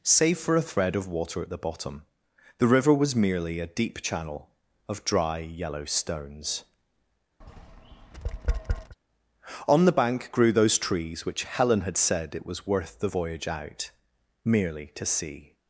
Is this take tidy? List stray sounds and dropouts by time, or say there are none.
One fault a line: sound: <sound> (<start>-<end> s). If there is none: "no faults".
sound: tap (7.4-9.0 s)